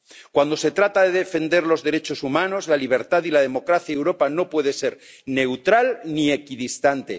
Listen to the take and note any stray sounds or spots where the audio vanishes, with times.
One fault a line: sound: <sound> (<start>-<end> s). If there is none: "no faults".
no faults